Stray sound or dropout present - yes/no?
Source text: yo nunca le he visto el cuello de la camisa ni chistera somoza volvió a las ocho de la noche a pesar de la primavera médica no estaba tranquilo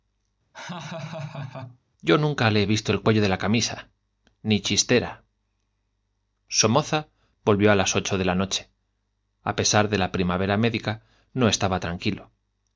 yes